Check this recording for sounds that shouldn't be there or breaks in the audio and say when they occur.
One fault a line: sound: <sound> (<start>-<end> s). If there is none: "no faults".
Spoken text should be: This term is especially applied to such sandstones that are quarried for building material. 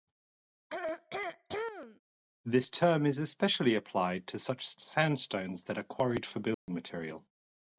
sound: throat clearing (0.7-2.0 s)
sound: dropout (6.5-6.7 s)